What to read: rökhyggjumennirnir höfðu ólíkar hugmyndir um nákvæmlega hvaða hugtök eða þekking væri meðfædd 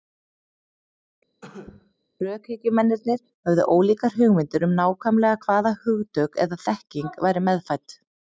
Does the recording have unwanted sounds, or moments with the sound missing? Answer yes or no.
yes